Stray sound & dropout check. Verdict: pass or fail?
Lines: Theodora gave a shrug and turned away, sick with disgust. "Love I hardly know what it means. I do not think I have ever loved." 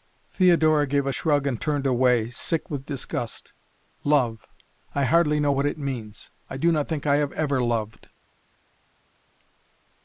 pass